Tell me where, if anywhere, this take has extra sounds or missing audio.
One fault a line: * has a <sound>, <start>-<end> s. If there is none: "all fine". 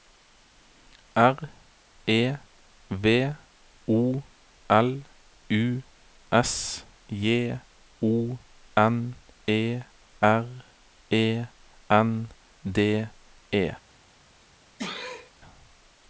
* has a sneeze, 14.8-15.3 s